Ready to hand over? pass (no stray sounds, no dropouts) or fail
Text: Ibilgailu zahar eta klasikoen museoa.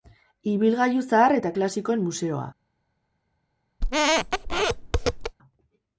fail